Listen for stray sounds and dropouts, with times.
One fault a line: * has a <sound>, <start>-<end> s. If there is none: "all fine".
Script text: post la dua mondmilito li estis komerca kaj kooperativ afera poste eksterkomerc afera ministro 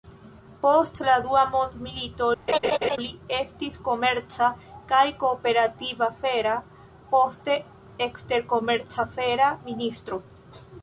* has a laugh, 2.5-3.0 s